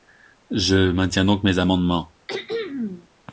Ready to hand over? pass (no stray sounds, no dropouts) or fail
fail